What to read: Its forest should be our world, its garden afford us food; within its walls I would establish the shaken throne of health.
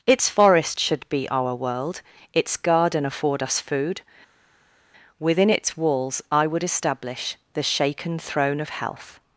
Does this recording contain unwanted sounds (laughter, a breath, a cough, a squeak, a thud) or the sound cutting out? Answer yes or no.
no